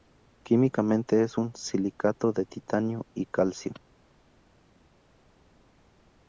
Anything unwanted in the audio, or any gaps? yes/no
no